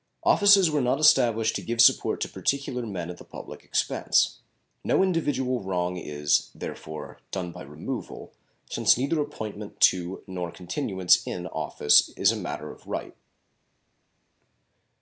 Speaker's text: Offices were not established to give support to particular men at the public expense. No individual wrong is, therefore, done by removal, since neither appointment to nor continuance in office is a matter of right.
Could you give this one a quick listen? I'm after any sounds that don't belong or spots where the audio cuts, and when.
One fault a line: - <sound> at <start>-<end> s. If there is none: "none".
none